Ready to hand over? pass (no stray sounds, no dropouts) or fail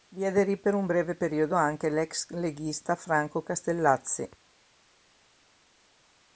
pass